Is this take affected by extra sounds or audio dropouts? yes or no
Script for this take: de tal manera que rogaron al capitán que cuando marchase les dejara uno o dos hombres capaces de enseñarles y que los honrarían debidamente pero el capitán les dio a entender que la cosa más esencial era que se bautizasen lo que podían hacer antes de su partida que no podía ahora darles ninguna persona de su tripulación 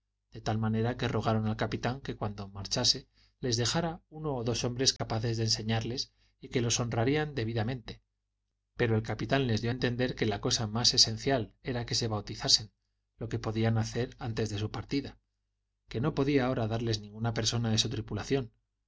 yes